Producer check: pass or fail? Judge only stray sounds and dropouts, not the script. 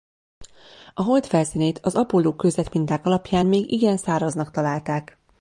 pass